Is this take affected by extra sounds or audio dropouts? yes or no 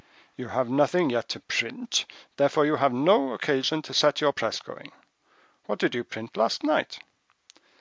no